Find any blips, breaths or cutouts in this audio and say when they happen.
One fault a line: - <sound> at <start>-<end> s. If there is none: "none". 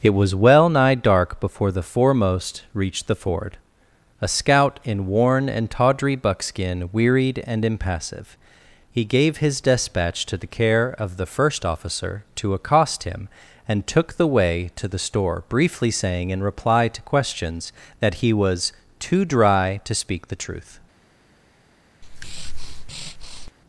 - breath at 22.0-23.5 s